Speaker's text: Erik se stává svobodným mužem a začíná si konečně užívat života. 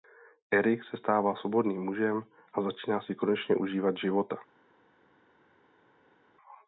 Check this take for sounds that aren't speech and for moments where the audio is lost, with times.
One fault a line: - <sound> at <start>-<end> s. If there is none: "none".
none